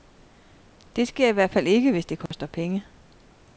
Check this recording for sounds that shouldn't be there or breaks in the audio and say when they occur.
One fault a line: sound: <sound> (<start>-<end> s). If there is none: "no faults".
sound: dropout (2.3-2.3 s)